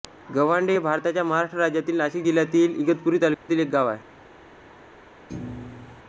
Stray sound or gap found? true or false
true